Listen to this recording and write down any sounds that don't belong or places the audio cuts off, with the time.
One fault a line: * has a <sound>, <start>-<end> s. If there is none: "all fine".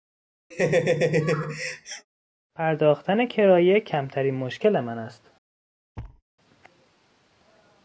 * has a laugh, 0.5-2.1 s
* has a thud, 6.0-6.2 s